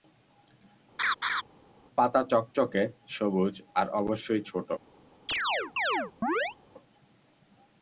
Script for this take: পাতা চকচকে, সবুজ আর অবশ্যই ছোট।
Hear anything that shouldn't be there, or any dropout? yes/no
yes